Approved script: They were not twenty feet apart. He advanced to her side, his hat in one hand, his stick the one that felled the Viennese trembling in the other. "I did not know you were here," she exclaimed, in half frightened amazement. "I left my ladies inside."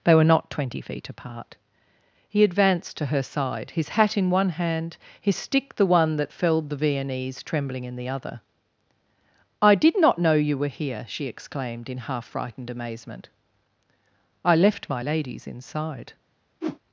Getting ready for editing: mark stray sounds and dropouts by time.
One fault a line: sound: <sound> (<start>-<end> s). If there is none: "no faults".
sound: whoosh (16.6-16.8 s)